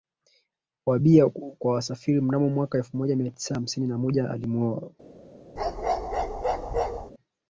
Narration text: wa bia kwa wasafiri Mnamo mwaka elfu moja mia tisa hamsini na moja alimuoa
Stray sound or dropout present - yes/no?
yes